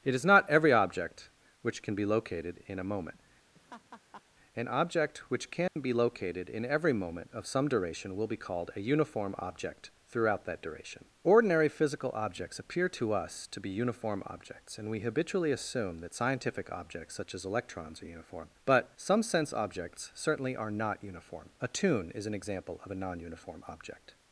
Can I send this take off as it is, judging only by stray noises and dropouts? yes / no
no